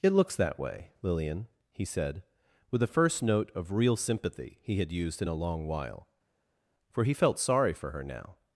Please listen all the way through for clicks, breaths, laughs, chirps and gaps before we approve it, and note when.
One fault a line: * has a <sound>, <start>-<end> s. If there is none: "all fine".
all fine